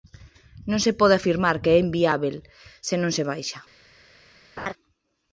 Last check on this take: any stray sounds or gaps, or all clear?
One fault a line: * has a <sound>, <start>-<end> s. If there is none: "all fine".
* has a laugh, 4.6-4.7 s